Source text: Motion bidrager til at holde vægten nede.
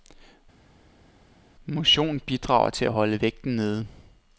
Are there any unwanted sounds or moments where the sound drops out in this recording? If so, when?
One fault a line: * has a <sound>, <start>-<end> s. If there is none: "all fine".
all fine